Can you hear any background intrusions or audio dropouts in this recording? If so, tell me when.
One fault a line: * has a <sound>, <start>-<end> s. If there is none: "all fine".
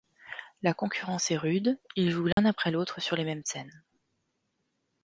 * has a dropout, 2.3-2.4 s